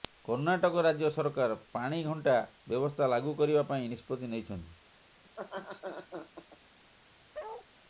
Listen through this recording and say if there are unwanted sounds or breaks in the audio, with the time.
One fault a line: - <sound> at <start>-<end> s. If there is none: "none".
- laugh at 5.2-6.6 s
- bark at 7.3-7.7 s